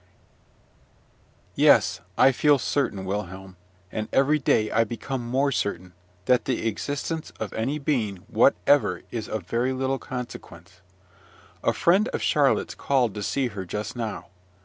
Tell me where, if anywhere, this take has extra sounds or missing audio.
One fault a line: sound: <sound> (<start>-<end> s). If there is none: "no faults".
no faults